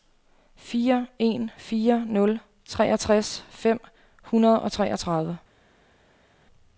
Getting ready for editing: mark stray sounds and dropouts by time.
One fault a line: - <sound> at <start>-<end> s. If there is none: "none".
none